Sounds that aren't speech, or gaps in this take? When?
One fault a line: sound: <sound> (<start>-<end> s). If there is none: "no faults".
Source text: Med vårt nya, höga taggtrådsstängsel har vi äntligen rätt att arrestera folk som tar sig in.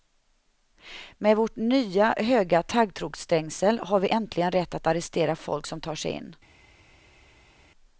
no faults